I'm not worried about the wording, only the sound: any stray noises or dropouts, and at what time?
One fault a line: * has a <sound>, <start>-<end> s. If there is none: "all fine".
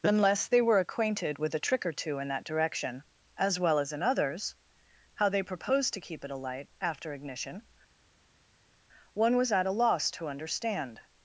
all fine